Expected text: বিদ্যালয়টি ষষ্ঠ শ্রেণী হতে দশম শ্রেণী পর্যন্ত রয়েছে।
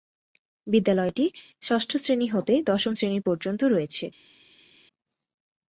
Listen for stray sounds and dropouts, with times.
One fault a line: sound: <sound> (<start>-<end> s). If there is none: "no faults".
no faults